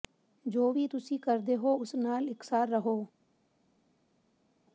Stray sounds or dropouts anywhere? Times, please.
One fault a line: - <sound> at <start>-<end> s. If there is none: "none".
none